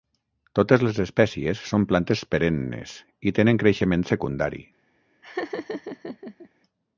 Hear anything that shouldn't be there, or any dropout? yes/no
yes